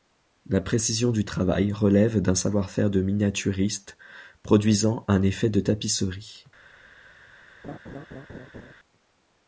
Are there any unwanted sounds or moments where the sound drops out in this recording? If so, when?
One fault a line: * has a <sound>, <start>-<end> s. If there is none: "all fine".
* has a laugh, 7.6-8.7 s